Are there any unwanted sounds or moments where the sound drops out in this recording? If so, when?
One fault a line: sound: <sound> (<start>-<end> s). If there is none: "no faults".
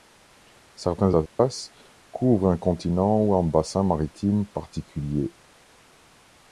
sound: dropout (1.3-1.4 s)